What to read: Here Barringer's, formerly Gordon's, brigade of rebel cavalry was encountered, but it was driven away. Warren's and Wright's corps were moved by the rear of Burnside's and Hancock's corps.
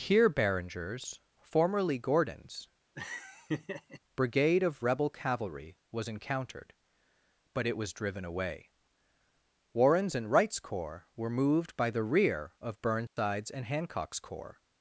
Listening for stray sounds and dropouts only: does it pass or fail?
fail